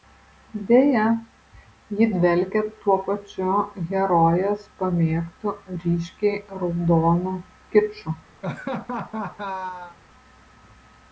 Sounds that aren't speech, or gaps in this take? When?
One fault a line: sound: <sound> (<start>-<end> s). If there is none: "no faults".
sound: laugh (8.4-10.0 s)